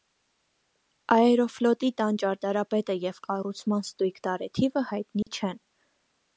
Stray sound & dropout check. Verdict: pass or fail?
fail